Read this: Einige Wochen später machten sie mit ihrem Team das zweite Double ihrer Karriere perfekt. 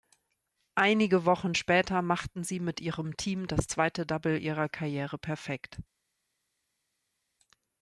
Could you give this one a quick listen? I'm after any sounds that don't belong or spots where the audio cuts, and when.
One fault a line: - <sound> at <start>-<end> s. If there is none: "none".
none